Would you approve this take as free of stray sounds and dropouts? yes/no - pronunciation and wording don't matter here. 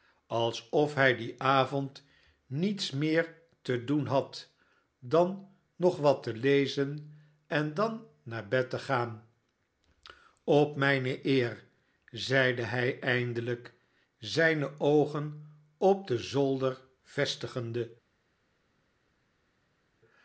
yes